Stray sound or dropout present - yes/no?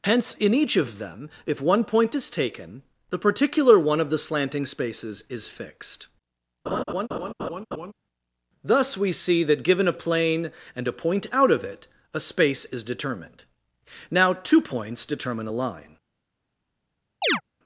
yes